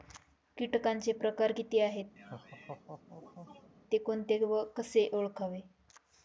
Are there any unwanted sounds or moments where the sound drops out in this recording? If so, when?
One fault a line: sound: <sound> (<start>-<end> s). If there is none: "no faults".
sound: laugh (2.2-3.7 s)